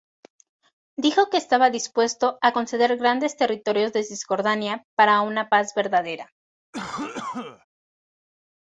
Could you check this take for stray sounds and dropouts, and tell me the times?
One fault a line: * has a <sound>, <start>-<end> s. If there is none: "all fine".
* has a cough, 6.7-7.6 s